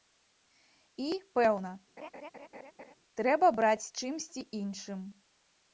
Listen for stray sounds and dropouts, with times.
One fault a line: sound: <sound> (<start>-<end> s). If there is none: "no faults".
sound: laugh (2.0-2.9 s)